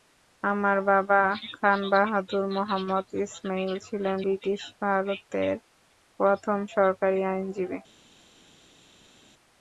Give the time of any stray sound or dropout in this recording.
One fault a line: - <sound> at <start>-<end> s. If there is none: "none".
none